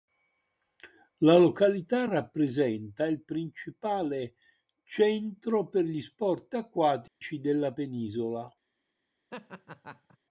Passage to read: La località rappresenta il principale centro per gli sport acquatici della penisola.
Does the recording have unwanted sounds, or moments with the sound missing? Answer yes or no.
yes